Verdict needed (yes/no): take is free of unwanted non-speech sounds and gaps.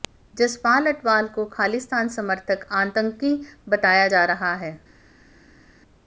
yes